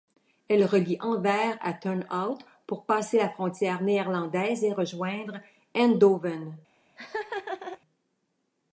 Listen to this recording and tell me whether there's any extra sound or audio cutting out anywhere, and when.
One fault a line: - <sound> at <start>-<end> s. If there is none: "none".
- laugh at 7.0-7.8 s